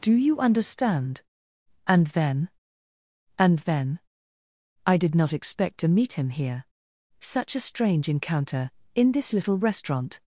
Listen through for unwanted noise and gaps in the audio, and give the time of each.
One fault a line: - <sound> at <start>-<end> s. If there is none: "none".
none